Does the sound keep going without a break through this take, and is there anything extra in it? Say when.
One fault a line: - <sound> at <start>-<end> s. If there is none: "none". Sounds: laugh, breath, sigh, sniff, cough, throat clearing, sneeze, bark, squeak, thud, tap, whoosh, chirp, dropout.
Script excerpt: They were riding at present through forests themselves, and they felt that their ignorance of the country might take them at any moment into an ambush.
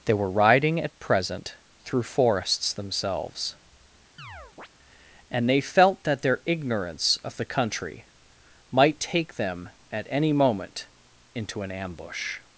- chirp at 4.2-4.7 s